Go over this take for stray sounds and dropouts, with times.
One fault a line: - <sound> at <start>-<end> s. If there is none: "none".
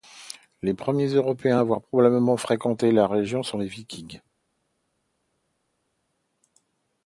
none